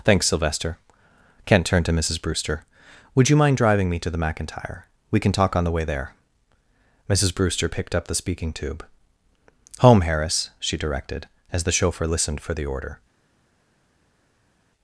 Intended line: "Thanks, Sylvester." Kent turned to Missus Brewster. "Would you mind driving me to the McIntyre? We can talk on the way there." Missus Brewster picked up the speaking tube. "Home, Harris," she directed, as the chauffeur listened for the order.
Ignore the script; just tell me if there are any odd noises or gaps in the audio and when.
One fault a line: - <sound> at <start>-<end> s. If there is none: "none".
none